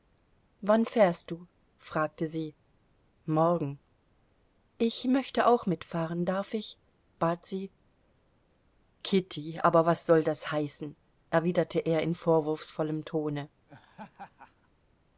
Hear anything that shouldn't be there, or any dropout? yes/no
yes